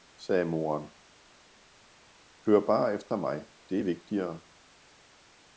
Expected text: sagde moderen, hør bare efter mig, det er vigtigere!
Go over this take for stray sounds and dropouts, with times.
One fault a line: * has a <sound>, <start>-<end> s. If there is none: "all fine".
all fine